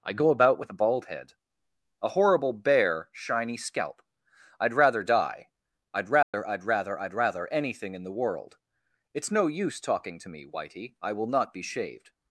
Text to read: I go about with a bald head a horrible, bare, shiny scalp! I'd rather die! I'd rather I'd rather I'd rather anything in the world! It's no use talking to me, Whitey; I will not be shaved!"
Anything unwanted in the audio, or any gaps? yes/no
yes